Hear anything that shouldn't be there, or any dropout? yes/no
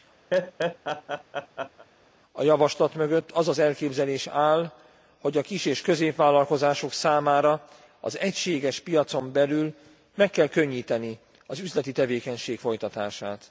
yes